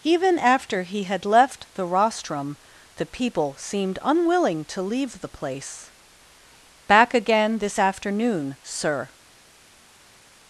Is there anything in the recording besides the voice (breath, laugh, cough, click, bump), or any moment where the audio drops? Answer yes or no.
no